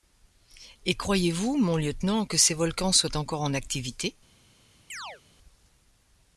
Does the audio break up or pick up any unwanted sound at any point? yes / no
yes